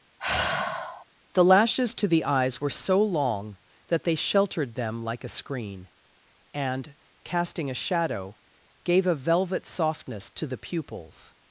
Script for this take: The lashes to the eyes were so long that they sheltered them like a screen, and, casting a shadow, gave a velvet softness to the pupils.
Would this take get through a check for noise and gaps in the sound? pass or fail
fail